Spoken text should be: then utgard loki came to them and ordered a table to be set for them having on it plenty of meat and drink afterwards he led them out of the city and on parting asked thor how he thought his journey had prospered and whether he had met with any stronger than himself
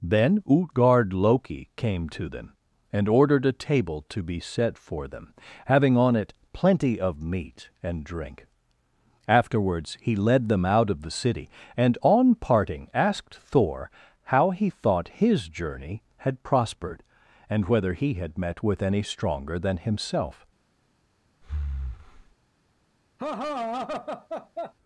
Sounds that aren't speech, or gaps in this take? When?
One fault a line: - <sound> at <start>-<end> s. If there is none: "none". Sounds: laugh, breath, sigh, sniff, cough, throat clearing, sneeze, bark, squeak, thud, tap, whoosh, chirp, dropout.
- breath at 21.4-22.3 s
- laugh at 23.2-24.7 s